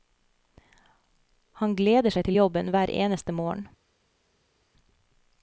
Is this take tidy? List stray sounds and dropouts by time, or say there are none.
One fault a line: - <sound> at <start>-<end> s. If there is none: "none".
none